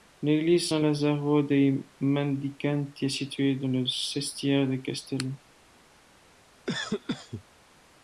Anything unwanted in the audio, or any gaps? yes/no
yes